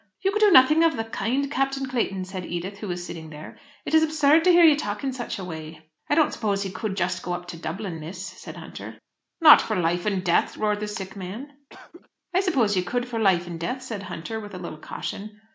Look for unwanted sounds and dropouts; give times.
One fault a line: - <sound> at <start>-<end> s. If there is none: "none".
- cough at 11.7-12.1 s